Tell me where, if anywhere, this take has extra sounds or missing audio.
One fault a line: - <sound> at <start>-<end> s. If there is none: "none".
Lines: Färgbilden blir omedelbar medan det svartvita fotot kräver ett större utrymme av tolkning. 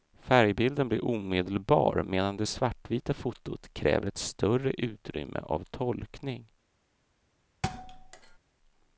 - thud at 7.6-8.4 s